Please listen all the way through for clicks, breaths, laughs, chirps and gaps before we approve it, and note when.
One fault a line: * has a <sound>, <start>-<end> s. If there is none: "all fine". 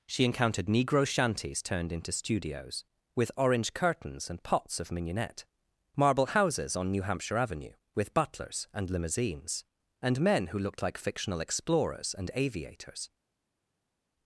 all fine